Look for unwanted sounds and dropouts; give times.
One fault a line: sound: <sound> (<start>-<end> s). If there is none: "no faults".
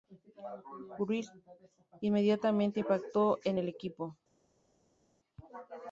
no faults